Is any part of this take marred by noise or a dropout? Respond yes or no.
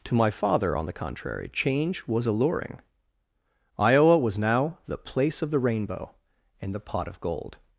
no